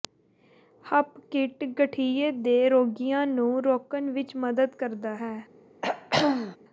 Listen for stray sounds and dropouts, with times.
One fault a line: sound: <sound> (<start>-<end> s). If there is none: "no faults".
sound: throat clearing (5.8-6.6 s)